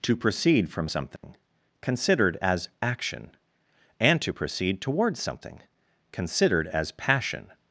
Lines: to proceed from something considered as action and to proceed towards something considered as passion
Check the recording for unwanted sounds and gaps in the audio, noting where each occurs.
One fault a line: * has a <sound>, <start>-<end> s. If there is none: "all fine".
* has a dropout, 1.2-1.2 s